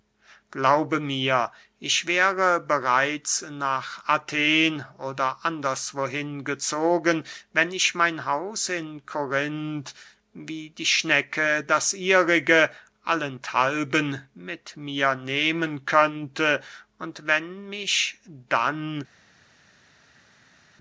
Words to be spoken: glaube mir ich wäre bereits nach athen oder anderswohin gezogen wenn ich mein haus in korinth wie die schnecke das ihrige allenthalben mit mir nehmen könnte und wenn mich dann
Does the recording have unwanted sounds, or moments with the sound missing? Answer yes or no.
no